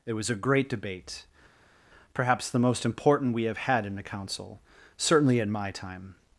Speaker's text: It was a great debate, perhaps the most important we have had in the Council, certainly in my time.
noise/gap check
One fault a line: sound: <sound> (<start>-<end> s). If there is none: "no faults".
no faults